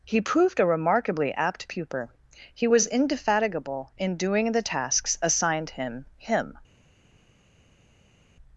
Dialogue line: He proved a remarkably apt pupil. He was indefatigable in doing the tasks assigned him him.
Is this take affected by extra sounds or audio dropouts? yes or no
no